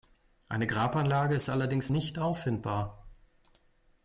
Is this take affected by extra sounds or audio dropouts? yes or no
no